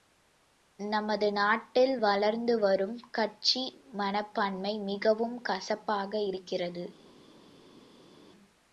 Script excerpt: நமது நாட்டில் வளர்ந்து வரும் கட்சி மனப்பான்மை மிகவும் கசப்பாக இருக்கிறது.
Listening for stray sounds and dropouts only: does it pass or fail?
pass